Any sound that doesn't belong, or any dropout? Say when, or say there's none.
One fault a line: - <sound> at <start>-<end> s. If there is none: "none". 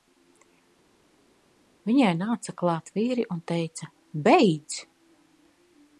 none